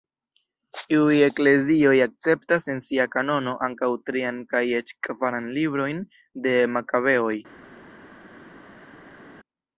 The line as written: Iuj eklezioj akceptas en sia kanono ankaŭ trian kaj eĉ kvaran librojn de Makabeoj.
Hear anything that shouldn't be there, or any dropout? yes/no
no